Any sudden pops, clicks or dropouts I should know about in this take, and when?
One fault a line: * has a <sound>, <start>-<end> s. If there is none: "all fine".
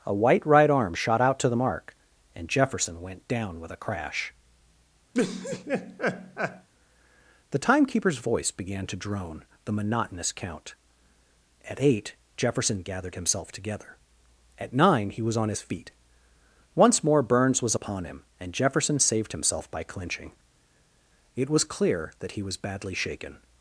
* has a laugh, 5.1-6.7 s